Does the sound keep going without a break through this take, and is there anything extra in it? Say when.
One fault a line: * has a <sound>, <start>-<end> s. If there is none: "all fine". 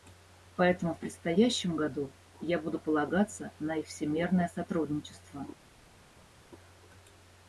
all fine